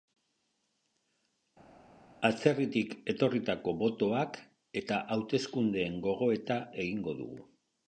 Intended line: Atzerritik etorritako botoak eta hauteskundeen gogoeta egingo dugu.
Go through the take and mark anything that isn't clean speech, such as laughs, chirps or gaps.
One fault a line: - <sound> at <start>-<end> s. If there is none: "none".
none